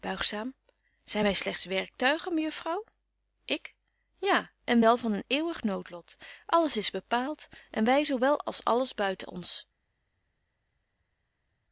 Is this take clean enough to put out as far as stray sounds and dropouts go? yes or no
yes